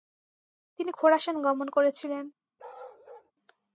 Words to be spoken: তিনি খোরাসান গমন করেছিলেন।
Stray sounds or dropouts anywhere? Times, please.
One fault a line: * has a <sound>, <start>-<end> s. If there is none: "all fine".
* has a bark, 2.6-3.3 s